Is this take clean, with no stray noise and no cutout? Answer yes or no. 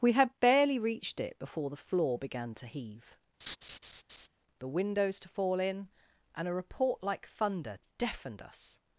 no